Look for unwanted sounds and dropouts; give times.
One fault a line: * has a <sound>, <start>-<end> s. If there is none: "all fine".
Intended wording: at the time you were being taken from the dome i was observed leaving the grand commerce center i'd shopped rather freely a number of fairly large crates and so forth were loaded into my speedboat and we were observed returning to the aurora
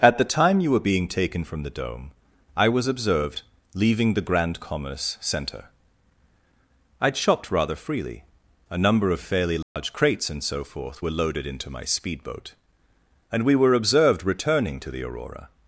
* has a dropout, 9.6-9.8 s